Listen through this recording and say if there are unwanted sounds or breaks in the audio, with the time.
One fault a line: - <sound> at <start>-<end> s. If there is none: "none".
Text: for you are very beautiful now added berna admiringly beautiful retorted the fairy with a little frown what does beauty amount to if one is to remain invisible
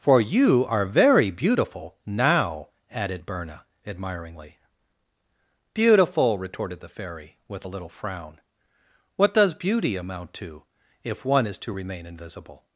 none